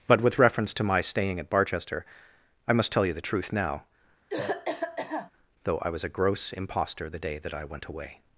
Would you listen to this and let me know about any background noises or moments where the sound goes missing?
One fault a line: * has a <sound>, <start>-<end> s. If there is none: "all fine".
* has a cough, 4.3-5.3 s